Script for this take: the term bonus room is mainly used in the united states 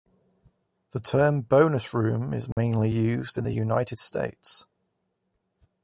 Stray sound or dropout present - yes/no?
yes